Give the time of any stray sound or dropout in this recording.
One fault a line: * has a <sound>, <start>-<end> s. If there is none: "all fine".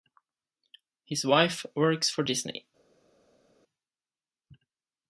all fine